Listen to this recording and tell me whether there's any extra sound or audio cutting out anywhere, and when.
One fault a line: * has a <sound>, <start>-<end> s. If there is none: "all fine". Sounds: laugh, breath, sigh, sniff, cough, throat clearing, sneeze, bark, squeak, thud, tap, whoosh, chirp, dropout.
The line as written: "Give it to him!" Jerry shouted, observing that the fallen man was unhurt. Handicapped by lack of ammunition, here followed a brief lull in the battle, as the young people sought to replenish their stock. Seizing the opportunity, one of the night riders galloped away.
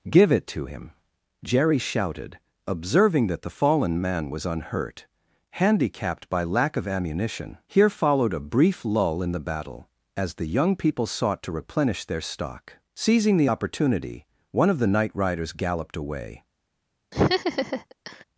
* has a laugh, 17.1-18.2 s